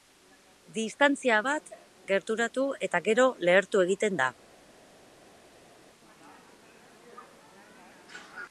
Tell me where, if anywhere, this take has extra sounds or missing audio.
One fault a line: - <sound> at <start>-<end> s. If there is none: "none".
none